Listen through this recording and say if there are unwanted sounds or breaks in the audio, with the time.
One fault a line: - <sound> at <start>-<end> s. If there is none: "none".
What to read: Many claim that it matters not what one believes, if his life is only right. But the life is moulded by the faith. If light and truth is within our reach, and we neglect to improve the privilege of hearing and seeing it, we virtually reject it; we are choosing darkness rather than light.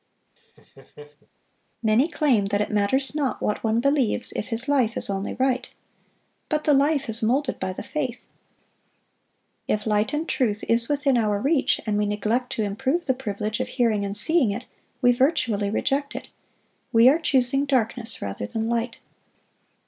- laugh at 0.4-1.3 s